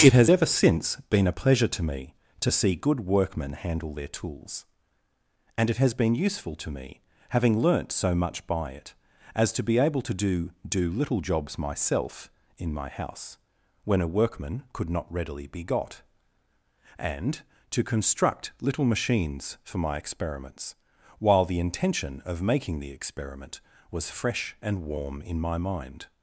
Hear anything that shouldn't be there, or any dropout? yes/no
no